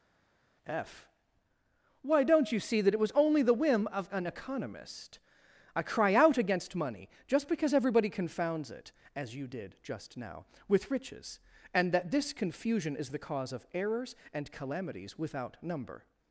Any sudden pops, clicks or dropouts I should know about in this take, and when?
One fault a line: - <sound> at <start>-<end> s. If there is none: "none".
none